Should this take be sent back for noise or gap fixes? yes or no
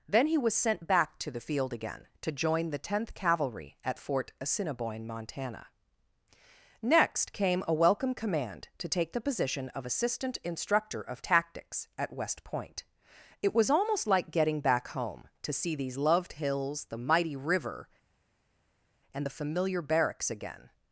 no